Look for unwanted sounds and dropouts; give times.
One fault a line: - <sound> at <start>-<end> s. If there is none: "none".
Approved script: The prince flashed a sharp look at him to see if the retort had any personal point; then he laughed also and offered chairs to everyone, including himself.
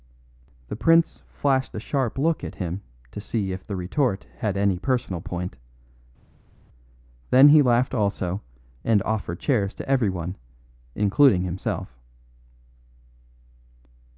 none